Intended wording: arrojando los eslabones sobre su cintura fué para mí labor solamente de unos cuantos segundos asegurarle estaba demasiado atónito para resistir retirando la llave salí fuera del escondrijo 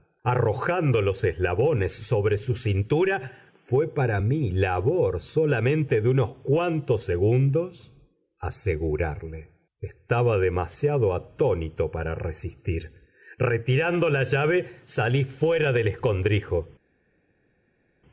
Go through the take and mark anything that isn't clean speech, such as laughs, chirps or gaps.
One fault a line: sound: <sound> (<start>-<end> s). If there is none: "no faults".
no faults